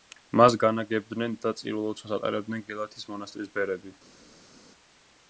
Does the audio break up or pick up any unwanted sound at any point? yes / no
no